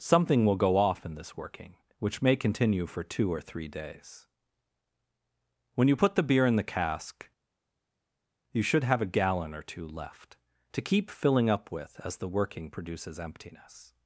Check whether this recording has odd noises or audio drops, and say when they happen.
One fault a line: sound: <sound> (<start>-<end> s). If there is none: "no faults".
no faults